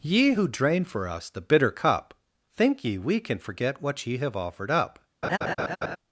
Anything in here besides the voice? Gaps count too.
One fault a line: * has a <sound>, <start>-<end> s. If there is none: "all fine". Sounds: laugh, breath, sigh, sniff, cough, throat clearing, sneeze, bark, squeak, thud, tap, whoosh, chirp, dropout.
* has a laugh, 5.2-6.0 s